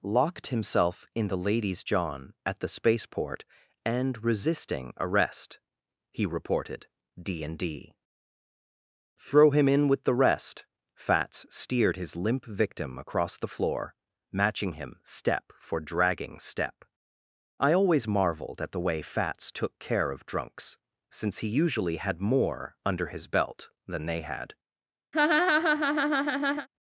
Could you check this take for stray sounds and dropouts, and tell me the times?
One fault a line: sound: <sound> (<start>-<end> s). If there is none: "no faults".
sound: laugh (25.1-26.7 s)